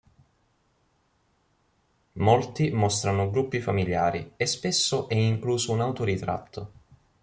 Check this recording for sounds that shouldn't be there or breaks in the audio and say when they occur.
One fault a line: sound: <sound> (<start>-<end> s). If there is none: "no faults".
no faults